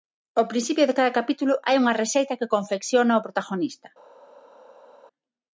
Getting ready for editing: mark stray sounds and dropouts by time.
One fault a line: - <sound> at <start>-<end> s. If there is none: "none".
none